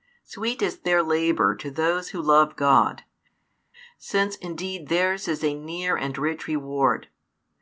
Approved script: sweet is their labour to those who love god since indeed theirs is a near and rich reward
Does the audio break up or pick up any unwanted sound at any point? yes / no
no